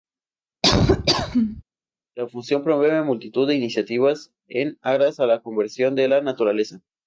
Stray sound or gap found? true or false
true